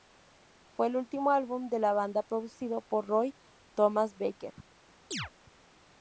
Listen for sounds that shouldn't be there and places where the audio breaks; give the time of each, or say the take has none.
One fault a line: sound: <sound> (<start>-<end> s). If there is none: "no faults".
sound: chirp (5.1-5.3 s)